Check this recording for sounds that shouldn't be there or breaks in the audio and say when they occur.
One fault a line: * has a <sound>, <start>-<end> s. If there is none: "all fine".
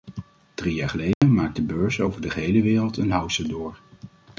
* has a dropout, 1.1-1.2 s